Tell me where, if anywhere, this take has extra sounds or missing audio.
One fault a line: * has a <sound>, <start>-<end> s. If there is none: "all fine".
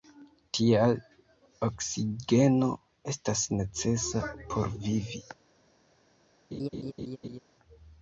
* has a laugh, 6.5-7.4 s